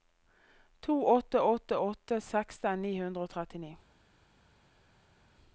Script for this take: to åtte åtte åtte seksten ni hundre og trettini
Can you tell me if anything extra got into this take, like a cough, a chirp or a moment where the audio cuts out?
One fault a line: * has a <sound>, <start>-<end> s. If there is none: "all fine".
all fine